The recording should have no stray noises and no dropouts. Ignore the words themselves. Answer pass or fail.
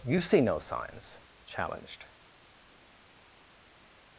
pass